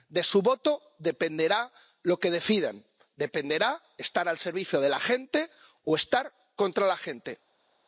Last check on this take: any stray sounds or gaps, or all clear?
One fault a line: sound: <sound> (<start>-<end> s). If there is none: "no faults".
no faults